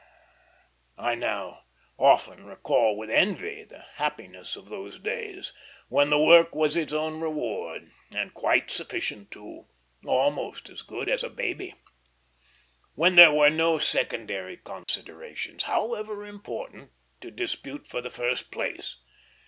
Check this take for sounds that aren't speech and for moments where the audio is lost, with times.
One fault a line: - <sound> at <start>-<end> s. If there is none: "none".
- dropout at 14.8-14.9 s